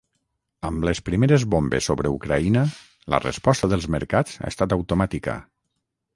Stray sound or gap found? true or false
false